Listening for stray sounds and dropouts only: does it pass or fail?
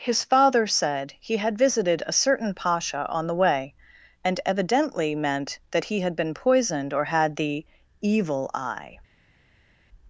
pass